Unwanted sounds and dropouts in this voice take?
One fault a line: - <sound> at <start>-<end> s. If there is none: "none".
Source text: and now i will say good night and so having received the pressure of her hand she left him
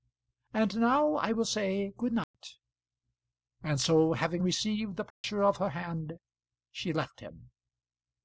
- dropout at 2.2-2.3 s
- dropout at 5.1-5.2 s